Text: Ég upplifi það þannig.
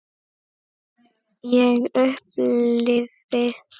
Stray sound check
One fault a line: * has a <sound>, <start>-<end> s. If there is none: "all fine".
all fine